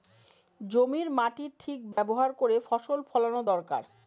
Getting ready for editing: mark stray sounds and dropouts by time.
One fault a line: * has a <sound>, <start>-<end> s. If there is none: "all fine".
* has a dropout, 1.9-2.0 s